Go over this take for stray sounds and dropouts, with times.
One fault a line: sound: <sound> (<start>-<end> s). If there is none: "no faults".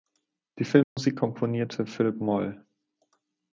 sound: dropout (0.8-1.0 s)